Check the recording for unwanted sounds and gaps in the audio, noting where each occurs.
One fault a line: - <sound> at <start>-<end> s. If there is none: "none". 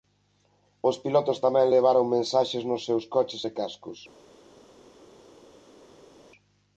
none